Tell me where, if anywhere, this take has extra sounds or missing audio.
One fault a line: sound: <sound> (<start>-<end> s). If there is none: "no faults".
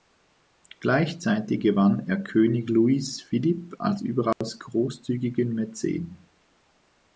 sound: dropout (4.3-4.4 s)